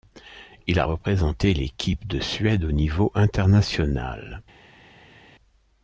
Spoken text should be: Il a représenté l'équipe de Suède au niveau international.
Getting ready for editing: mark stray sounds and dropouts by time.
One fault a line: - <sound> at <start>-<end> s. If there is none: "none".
none